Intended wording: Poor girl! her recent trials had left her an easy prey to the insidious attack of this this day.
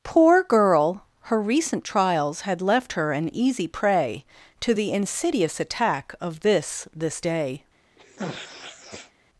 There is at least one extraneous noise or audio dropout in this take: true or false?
true